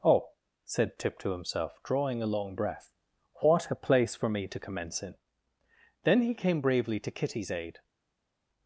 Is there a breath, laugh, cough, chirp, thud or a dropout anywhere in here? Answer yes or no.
no